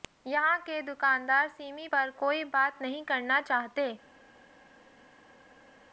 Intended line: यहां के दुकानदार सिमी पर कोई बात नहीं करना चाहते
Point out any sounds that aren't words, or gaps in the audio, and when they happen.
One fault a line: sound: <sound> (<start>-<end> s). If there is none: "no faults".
no faults